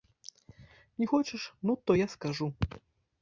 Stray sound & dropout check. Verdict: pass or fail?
pass